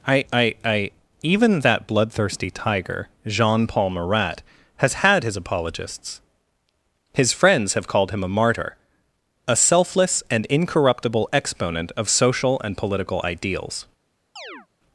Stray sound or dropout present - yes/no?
yes